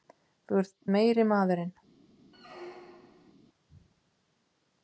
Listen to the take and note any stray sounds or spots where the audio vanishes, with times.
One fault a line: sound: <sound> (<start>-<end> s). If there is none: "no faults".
sound: squeak (2.3-3.3 s)